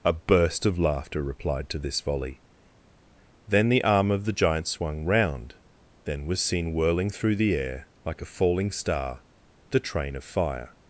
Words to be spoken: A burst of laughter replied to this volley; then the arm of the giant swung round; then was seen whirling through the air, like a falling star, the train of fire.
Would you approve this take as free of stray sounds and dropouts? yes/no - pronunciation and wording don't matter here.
yes